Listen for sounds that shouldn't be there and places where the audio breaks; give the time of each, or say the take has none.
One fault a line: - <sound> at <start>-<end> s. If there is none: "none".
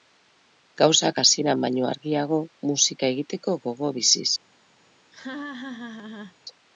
- laugh at 5.1-6.4 s